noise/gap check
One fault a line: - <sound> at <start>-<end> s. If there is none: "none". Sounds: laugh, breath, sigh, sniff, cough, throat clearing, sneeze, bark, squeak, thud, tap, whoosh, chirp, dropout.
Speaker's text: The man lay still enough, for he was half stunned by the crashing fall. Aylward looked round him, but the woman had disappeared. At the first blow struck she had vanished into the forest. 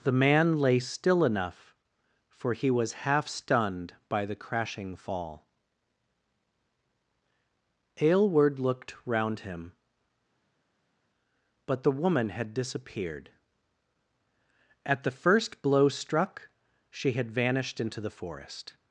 none